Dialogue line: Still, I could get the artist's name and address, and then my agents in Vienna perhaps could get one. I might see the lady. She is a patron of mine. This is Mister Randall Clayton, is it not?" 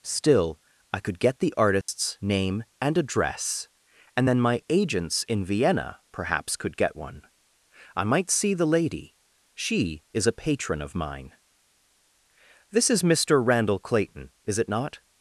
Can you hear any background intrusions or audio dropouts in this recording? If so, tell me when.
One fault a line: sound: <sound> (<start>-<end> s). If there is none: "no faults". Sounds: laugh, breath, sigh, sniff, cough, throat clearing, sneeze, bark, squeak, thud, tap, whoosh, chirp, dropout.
sound: dropout (1.8-1.9 s)